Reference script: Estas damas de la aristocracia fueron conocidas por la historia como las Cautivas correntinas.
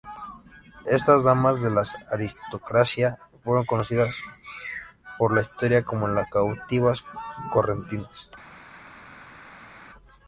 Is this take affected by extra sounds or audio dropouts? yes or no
no